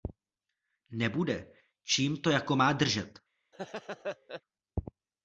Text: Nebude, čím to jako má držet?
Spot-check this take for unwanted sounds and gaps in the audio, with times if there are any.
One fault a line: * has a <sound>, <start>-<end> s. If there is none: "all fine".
* has a laugh, 3.5-4.4 s